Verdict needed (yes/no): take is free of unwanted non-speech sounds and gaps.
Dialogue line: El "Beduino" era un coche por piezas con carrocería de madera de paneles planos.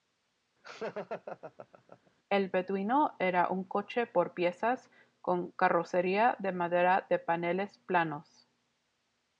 no